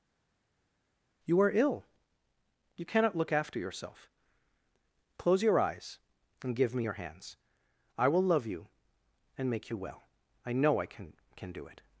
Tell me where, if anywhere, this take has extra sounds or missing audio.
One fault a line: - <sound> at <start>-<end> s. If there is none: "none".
none